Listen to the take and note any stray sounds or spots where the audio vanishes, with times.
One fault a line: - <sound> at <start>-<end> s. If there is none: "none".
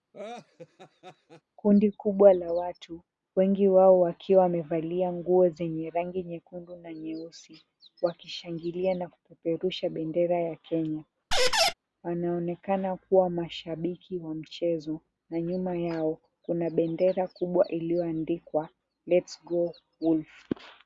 - laugh at 0.1-1.4 s
- squeak at 11.3-11.7 s